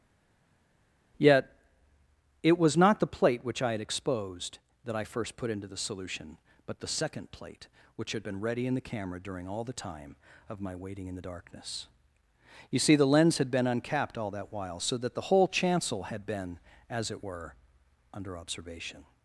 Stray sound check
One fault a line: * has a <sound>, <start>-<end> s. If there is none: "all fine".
all fine